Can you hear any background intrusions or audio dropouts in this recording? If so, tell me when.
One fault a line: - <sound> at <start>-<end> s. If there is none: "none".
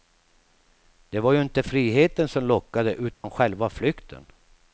- dropout at 3.1-3.2 s